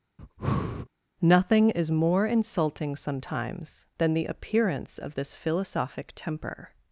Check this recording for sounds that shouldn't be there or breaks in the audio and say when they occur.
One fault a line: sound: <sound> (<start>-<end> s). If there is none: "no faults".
sound: breath (0.2-0.9 s)